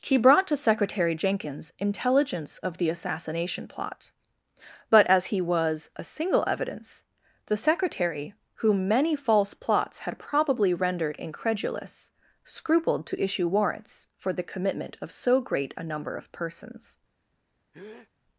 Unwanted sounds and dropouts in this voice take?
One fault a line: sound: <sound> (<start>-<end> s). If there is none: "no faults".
sound: breath (17.7-18.1 s)